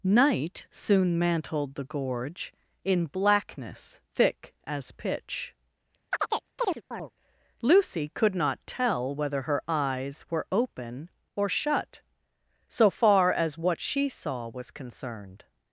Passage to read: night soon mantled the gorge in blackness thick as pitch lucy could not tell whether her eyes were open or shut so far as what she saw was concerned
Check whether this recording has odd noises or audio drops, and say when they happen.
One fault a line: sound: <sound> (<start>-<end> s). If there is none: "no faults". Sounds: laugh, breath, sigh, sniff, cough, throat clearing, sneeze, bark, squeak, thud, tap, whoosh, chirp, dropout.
sound: chirp (6.1-7.1 s)